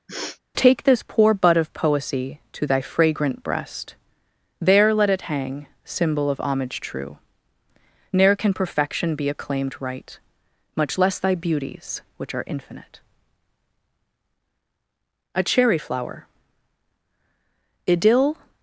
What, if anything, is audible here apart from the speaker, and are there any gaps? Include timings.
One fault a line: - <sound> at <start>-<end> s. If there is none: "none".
- sniff at 0.1-0.4 s